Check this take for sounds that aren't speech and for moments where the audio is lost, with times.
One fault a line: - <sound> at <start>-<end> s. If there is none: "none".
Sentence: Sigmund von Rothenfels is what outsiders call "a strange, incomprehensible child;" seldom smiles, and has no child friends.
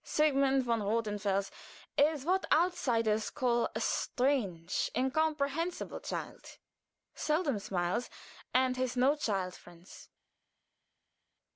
none